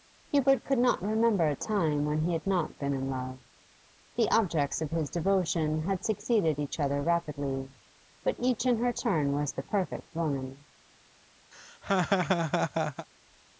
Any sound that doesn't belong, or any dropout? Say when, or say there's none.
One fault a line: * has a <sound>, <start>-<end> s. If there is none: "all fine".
* has a laugh, 11.5-13.1 s